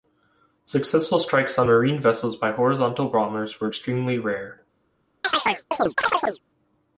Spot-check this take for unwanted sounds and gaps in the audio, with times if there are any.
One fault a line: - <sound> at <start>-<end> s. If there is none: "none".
- chirp at 5.2-6.4 s